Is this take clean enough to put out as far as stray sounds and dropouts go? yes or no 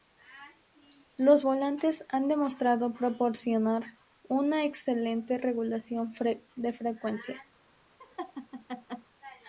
no